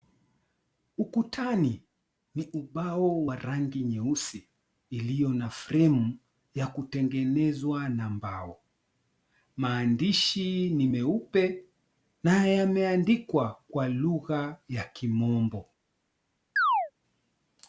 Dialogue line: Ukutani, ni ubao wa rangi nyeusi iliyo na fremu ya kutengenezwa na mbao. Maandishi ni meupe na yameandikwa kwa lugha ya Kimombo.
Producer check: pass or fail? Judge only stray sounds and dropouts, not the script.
fail